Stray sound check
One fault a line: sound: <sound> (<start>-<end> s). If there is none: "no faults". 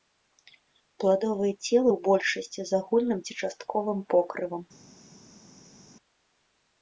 no faults